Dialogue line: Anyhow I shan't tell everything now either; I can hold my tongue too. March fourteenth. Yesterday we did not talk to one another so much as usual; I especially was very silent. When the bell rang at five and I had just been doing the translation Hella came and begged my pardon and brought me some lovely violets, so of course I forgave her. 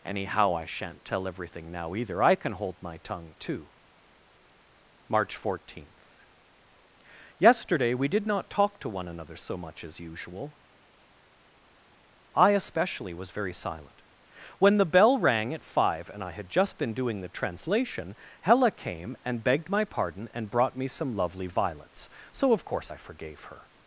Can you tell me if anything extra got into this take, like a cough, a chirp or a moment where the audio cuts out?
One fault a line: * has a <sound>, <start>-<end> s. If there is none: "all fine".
all fine